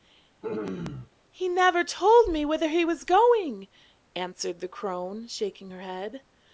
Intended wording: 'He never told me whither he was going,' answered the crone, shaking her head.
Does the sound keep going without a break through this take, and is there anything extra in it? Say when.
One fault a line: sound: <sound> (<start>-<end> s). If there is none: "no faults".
sound: throat clearing (0.4-1.1 s)